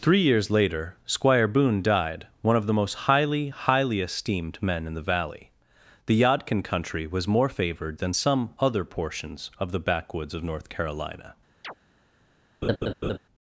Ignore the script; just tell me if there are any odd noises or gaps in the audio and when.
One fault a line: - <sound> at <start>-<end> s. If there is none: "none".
- chirp at 11.6-11.7 s
- laugh at 12.6-13.2 s